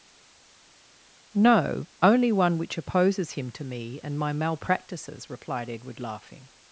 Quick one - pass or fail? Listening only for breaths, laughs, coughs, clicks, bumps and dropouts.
pass